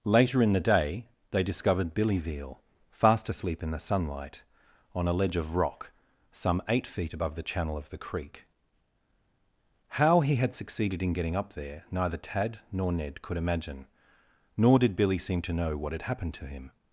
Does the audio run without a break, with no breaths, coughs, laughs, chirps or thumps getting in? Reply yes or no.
yes